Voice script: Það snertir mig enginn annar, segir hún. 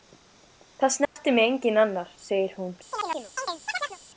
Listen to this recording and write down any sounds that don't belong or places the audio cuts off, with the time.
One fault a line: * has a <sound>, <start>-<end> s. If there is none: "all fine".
* has a dropout, 1.0-1.2 s
* has a chirp, 2.9-4.0 s